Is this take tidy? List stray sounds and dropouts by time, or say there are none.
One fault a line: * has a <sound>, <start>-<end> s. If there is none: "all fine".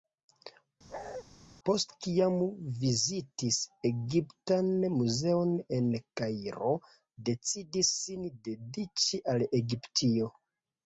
* has a bark, 0.9-1.2 s